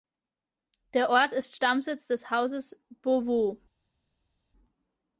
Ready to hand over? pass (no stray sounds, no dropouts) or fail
pass